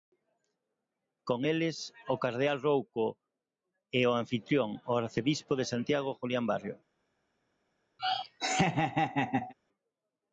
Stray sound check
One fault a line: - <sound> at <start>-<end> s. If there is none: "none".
- laugh at 8.0-9.5 s